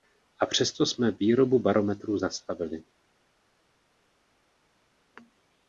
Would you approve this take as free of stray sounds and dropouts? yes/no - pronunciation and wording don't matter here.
yes